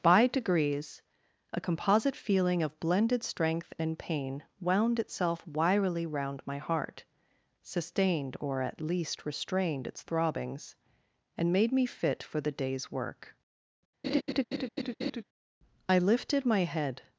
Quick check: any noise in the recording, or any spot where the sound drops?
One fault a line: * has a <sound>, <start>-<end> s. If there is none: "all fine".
* has a laugh, 14.0-15.2 s